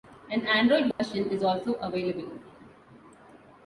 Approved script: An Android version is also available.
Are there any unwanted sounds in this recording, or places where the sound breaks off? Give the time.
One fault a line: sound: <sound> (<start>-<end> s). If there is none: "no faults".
sound: dropout (0.9-1.0 s)